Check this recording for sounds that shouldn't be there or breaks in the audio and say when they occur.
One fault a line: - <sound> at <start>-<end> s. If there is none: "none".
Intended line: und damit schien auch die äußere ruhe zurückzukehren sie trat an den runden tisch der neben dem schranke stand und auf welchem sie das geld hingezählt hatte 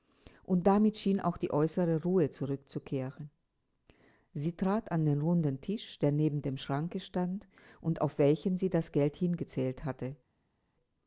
none